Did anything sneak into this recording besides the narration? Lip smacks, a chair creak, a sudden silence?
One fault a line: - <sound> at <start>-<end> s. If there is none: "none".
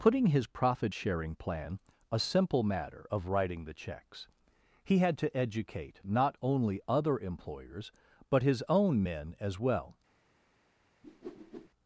- whoosh at 11.0-11.7 s